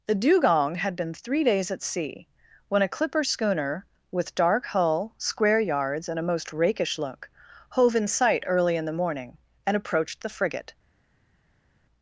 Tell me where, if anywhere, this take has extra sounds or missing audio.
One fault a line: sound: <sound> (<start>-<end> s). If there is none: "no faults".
no faults